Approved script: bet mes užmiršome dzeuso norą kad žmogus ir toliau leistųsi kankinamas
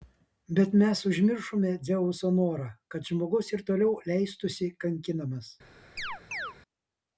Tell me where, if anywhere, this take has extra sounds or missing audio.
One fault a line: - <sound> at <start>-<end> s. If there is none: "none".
- chirp at 6.0-6.6 s